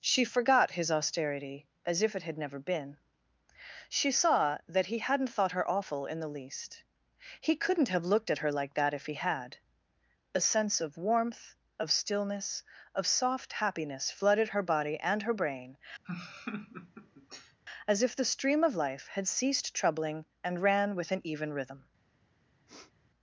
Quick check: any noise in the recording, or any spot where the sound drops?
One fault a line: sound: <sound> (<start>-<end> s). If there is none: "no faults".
sound: laugh (16.0-17.6 s)
sound: sniff (22.7-22.9 s)